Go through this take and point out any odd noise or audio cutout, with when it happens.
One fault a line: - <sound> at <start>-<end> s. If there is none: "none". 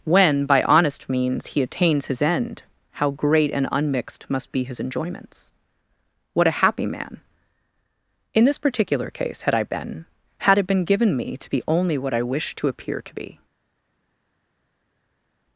none